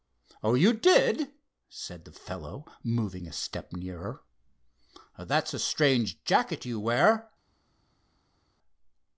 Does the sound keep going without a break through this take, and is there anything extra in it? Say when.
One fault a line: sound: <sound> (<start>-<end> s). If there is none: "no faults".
no faults